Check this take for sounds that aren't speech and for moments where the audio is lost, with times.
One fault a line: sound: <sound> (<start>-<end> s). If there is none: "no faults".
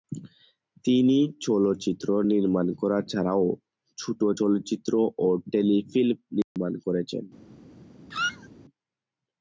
sound: dropout (6.4-6.6 s)
sound: squeak (8.1-8.5 s)